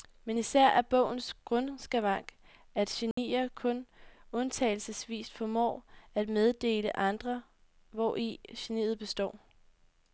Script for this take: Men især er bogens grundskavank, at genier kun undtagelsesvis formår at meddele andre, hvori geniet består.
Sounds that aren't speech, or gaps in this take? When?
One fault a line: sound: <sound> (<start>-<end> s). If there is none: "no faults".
sound: dropout (3.1-3.2 s)